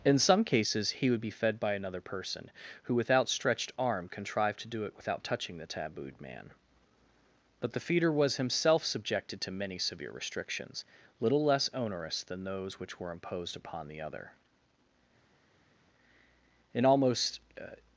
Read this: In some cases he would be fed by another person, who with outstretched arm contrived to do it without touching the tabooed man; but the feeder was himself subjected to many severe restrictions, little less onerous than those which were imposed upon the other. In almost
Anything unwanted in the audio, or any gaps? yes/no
no